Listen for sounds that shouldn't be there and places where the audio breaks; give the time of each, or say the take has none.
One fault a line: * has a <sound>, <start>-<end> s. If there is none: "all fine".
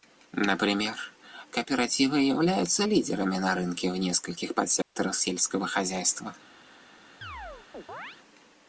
* has a dropout, 4.8-5.0 s
* has a chirp, 7.2-8.2 s